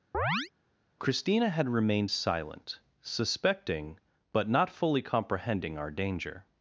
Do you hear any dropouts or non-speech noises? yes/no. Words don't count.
yes